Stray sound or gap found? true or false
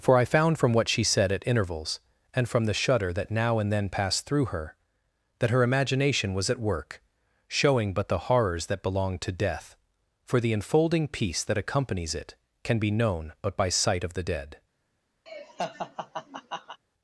true